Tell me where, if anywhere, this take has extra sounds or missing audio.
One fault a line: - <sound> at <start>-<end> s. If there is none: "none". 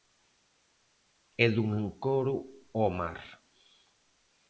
none